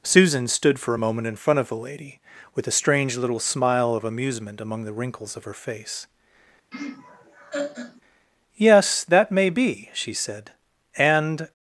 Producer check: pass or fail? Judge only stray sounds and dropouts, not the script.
fail